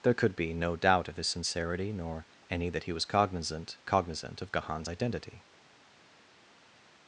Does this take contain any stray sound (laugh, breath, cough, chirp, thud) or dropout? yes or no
no